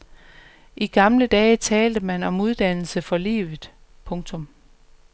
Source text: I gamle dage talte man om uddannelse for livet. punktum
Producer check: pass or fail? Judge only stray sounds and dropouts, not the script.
pass